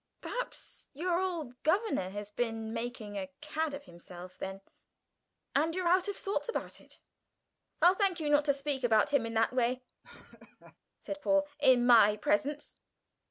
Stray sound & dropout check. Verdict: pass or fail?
fail